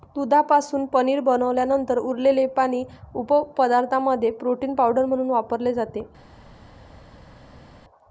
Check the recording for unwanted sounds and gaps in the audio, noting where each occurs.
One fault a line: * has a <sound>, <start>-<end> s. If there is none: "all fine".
all fine